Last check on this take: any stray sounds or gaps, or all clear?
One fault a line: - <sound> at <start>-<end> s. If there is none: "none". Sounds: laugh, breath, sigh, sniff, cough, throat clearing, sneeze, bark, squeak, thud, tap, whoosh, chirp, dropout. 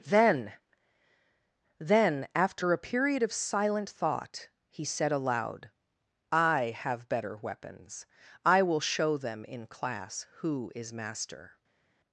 none